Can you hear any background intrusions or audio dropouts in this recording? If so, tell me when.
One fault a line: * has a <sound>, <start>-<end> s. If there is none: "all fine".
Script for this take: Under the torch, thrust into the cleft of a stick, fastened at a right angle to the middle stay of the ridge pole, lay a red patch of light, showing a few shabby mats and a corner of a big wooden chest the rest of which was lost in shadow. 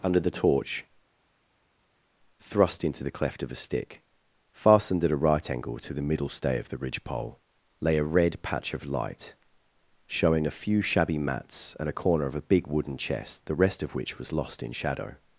all fine